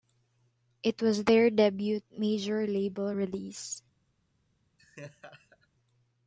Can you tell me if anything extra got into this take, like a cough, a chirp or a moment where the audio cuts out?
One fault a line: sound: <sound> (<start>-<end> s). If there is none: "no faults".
sound: laugh (4.8-5.7 s)